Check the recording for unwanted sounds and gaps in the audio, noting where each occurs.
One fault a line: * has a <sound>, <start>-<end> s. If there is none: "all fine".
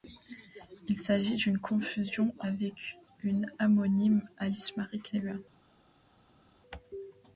all fine